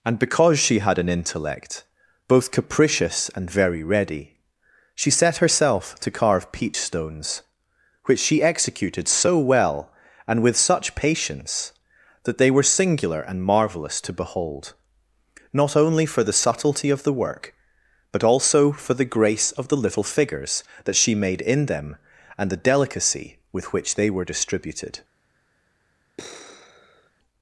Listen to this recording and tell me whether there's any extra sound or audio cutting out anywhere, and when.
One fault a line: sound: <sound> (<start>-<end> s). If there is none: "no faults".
sound: sigh (26.2-27.1 s)